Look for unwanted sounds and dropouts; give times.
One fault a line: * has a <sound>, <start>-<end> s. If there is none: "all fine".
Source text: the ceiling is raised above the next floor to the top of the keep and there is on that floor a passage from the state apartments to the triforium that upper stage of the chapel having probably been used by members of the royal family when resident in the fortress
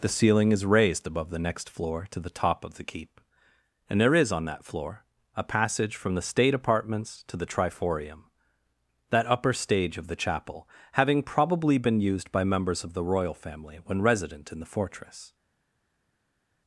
all fine